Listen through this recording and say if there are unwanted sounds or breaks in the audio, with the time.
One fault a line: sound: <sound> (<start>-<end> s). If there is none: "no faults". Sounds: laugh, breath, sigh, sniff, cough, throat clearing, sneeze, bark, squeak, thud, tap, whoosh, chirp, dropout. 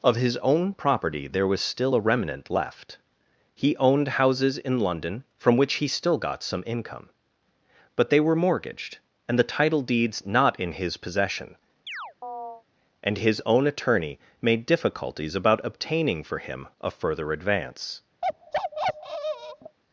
sound: chirp (11.9-12.6 s)
sound: bark (18.2-19.8 s)